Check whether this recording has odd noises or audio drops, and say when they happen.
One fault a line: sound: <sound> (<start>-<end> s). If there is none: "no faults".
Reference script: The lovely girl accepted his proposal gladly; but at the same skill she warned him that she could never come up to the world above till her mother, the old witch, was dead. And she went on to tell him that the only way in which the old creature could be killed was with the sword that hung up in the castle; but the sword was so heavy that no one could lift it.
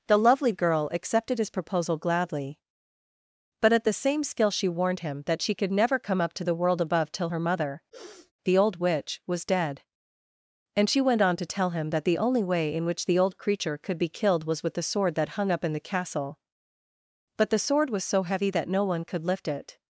sound: sniff (7.9-8.3 s)